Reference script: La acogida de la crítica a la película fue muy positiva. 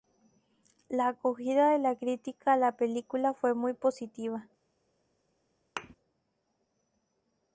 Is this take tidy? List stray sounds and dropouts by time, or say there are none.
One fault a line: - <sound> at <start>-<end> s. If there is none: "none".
- thud at 5.8-6.0 s